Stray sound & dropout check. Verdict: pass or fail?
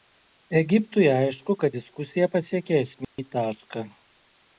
fail